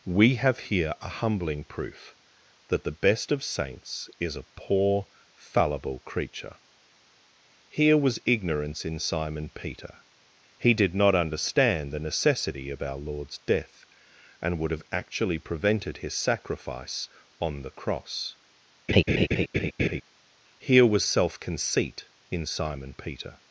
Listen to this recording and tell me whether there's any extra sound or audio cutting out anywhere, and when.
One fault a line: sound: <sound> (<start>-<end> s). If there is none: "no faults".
sound: laugh (18.9-20.0 s)